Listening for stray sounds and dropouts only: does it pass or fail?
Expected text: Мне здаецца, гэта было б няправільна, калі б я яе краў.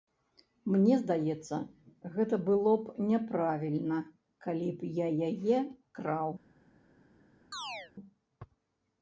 fail